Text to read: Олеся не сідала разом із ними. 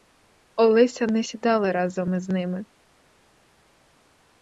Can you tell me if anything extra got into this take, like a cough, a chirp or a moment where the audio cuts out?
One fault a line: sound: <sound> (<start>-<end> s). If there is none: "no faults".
no faults